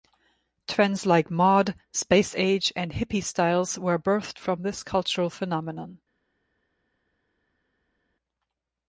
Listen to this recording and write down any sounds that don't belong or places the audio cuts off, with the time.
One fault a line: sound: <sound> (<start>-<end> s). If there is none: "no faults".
no faults